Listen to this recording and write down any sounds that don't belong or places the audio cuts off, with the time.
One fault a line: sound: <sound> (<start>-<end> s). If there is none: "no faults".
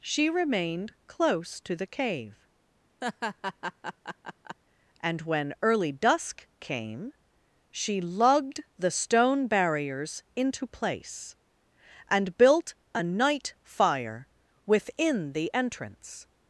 sound: laugh (3.0-4.6 s)